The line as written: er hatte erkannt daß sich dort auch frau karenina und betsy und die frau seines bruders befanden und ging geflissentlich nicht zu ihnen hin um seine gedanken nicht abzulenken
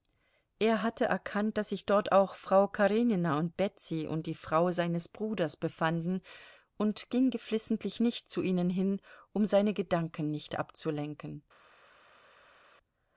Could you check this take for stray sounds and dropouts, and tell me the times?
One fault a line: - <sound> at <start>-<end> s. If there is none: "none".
none